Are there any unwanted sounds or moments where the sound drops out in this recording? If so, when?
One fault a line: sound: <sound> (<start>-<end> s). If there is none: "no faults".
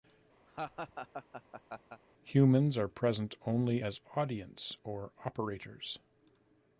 sound: laugh (0.5-2.0 s)